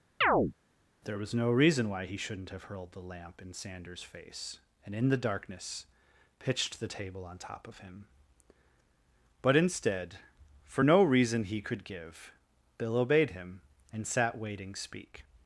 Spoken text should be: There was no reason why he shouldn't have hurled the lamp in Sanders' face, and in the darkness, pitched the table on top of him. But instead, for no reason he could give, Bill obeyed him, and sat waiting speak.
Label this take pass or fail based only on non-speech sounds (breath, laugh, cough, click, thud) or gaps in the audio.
fail